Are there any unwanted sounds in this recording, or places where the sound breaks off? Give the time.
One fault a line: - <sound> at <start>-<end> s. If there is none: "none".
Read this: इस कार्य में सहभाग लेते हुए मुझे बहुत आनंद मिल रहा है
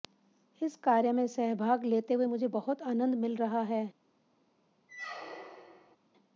- squeak at 4.9-6.0 s